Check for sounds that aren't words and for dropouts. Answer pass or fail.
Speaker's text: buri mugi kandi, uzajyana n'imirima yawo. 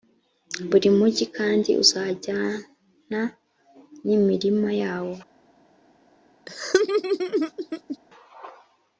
fail